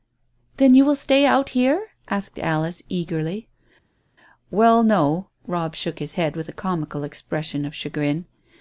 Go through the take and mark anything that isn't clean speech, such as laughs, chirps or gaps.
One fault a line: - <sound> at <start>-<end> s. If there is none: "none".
none